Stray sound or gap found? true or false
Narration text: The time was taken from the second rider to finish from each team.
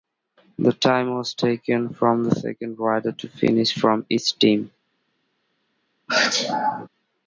true